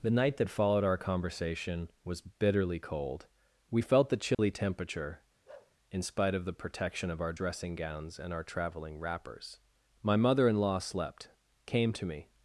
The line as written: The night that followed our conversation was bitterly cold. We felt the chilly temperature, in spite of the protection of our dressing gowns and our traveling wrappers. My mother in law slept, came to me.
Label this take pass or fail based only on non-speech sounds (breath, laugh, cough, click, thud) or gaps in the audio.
fail